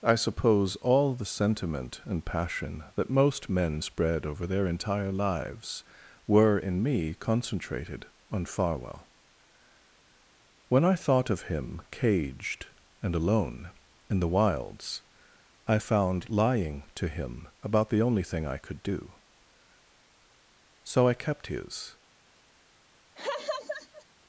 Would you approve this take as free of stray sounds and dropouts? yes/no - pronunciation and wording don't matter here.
no